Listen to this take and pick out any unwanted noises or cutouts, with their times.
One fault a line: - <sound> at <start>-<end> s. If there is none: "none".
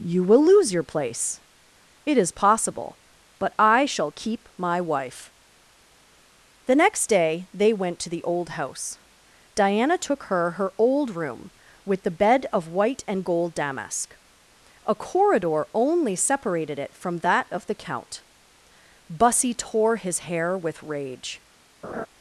- laugh at 21.8-22.1 s